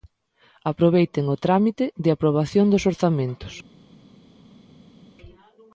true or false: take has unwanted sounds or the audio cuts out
false